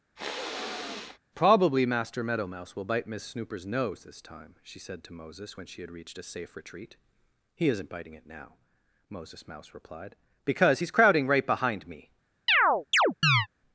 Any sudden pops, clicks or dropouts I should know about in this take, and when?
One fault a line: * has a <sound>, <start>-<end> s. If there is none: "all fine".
* has a sniff, 0.2-1.2 s
* has a chirp, 12.5-13.5 s